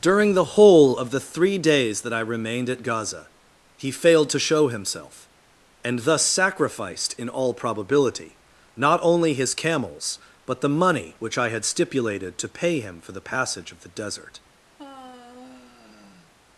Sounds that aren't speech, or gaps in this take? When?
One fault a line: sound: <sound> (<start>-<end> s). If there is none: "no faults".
sound: sigh (14.8-16.3 s)